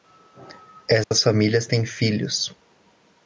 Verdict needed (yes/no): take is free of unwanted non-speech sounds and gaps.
no